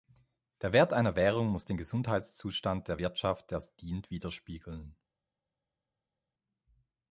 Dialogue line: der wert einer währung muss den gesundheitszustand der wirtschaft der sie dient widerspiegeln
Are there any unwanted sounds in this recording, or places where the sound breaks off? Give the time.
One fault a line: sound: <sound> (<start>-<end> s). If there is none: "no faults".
no faults